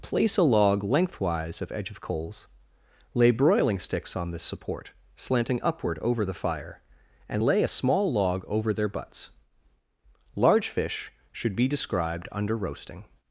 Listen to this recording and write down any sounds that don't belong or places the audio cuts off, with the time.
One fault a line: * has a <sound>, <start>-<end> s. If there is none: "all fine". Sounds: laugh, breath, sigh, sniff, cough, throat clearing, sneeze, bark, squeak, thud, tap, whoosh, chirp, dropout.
all fine